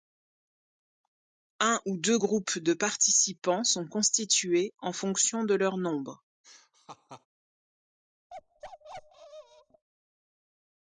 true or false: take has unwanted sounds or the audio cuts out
true